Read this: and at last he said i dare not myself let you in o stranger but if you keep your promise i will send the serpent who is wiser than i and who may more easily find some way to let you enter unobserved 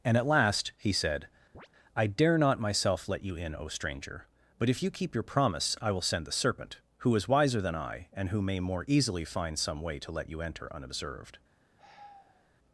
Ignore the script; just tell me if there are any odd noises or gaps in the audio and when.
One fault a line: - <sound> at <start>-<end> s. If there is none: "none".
- chirp at 1.5-1.7 s
- sigh at 11.8-12.5 s